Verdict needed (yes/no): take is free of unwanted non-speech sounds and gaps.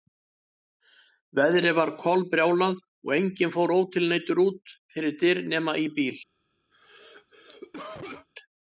no